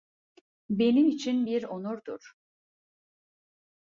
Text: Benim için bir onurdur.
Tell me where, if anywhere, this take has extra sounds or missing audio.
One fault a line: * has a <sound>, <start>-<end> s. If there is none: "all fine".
all fine